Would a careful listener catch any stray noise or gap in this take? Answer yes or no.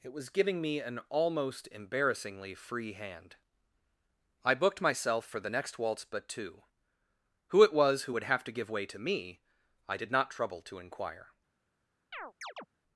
yes